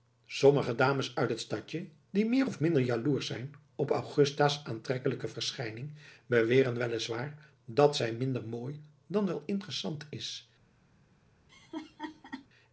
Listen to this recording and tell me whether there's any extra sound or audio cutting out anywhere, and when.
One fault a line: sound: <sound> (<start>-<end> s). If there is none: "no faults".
sound: laugh (11.5-12.5 s)